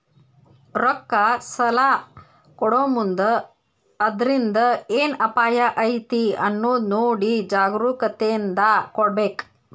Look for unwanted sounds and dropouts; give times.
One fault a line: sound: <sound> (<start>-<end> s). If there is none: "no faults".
no faults